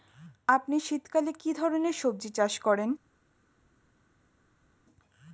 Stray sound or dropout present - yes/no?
no